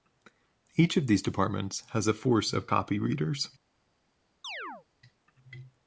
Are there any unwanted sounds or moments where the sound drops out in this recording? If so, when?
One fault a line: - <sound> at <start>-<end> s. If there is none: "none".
- chirp at 4.4-4.9 s